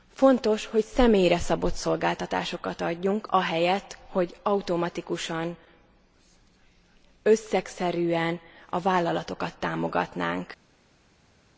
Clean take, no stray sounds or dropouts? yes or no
yes